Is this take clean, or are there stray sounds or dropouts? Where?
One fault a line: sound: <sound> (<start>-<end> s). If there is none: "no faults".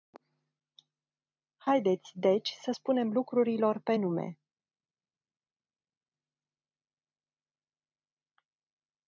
no faults